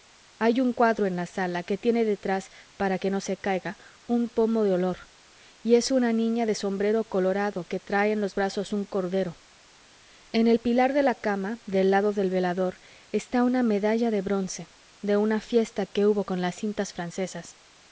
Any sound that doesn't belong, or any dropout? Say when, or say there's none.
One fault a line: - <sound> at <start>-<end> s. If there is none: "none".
none